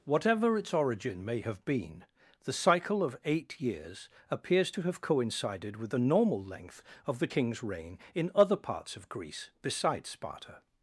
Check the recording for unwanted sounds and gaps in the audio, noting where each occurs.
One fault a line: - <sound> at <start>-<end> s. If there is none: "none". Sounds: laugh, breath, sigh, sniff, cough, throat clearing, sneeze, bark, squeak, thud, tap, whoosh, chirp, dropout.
none